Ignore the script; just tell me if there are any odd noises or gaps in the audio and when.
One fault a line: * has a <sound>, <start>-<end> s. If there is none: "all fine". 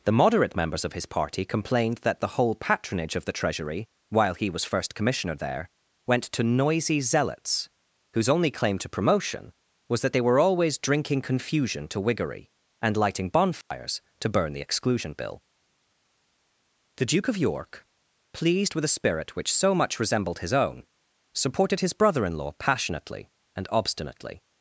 * has a dropout, 13.6-13.7 s